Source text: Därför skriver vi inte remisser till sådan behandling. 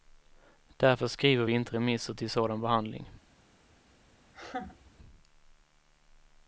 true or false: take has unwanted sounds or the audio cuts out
true